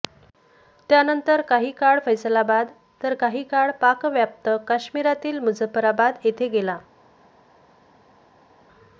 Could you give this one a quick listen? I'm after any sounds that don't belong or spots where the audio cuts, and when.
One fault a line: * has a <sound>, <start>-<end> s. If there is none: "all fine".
all fine